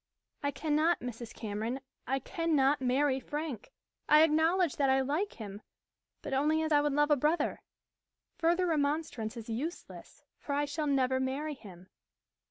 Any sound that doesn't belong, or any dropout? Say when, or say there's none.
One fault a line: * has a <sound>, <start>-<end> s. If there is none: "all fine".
all fine